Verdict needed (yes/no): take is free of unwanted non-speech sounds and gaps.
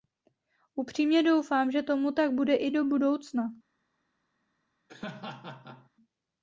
no